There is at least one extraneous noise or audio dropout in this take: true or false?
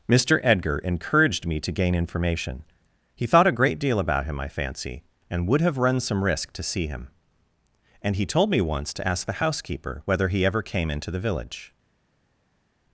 false